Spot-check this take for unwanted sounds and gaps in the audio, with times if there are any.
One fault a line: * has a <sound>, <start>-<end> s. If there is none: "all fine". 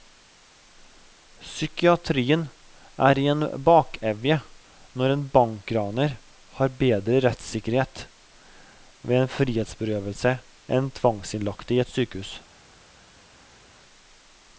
all fine